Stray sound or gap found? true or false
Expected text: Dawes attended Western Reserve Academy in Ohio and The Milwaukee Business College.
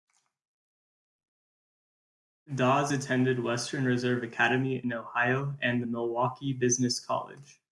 false